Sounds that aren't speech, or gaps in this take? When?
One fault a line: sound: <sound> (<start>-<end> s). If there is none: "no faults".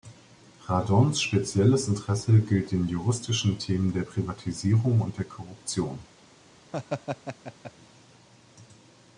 sound: laugh (6.7-7.7 s)